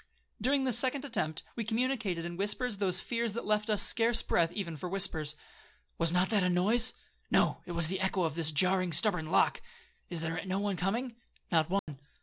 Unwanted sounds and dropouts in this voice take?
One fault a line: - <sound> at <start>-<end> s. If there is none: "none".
- dropout at 11.8-11.9 s